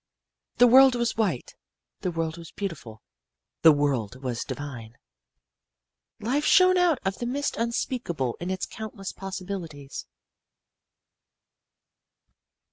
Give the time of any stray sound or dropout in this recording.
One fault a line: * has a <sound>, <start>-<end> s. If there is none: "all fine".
all fine